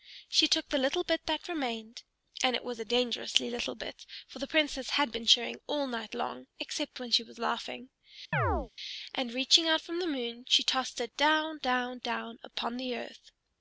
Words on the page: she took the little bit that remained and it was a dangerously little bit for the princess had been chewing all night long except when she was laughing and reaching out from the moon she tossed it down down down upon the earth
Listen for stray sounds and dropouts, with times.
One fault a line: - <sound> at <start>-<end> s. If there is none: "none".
- chirp at 8.3-8.7 s